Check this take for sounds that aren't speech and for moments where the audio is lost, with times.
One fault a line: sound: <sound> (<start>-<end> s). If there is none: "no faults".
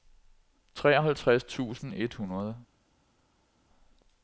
no faults